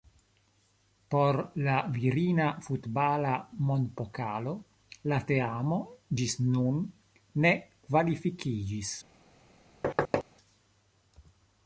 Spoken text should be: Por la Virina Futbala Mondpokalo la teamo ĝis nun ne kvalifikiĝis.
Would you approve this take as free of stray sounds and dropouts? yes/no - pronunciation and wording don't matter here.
no